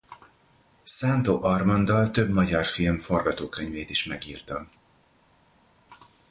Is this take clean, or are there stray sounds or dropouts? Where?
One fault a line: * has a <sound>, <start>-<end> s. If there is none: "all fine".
all fine